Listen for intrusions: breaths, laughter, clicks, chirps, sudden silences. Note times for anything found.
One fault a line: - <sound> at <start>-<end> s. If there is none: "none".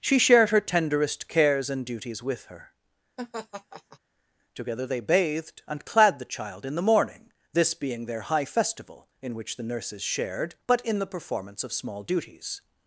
- laugh at 3.2-4.0 s